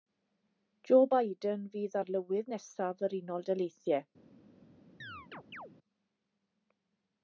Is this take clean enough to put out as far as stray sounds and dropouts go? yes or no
no